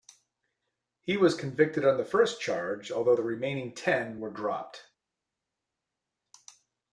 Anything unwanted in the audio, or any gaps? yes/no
no